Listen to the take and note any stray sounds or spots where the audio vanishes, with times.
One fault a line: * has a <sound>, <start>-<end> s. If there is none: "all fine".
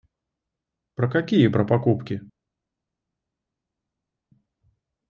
all fine